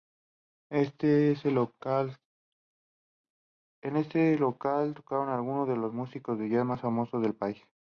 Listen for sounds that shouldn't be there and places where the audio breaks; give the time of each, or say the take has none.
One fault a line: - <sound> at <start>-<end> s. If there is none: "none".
none